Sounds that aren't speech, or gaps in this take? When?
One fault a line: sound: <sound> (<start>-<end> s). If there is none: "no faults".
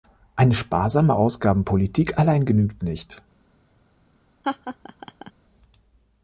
sound: laugh (4.4-5.3 s)